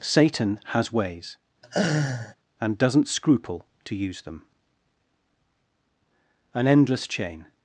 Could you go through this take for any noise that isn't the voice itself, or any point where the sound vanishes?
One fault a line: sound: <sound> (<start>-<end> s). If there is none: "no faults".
sound: laugh (1.6-2.4 s)